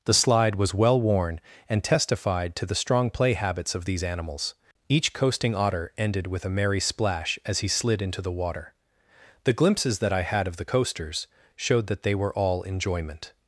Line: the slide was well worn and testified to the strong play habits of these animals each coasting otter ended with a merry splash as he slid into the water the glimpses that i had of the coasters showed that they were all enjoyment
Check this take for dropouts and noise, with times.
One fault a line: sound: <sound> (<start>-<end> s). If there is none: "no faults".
no faults